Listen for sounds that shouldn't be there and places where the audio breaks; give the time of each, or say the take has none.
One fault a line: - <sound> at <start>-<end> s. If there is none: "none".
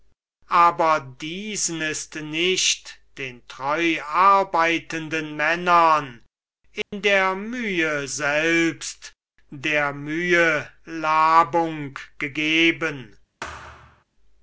- dropout at 6.8-6.9 s
- thud at 13.4-14.0 s